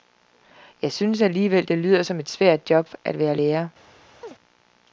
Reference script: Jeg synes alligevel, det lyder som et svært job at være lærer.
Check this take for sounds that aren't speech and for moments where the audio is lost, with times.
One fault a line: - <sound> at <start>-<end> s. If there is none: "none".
- chirp at 4.2-4.4 s